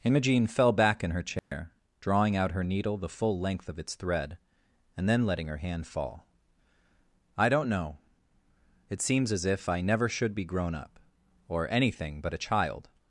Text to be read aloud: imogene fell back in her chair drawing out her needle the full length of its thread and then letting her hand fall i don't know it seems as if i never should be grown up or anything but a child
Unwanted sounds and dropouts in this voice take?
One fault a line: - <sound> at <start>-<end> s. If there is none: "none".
- dropout at 1.4-1.5 s